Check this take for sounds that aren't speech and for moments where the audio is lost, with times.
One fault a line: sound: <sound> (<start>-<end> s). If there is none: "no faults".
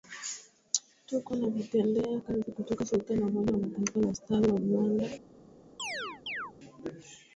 sound: chirp (5.8-6.5 s)